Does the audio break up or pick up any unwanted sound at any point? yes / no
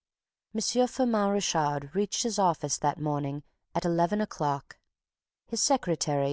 no